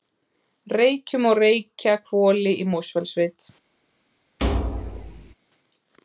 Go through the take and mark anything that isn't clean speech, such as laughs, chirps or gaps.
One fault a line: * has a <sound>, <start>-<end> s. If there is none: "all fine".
* has a thud, 4.4-5.3 s